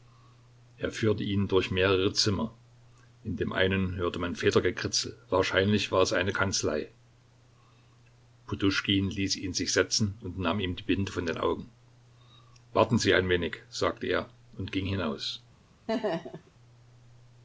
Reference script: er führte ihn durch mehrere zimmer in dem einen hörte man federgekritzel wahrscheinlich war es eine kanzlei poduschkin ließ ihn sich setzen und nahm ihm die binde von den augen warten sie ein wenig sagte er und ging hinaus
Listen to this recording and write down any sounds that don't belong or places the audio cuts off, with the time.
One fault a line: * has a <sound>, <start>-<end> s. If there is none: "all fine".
* has a laugh, 15.9-16.5 s